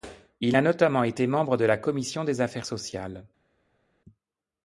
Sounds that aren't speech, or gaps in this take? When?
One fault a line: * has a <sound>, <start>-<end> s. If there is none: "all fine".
all fine